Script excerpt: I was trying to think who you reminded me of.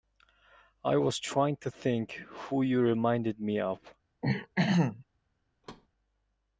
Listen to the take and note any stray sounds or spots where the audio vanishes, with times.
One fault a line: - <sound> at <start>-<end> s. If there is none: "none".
- throat clearing at 4.2-5.0 s
- thud at 5.6-5.9 s